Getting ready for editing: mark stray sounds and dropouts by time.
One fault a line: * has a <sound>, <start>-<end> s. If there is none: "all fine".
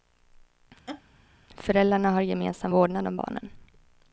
* has a laugh, 0.9-1.0 s